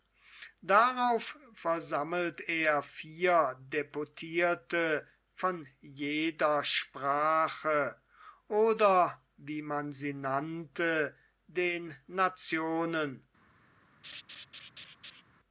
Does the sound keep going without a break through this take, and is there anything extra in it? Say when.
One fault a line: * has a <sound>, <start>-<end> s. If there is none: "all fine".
* has a laugh, 14.0-15.2 s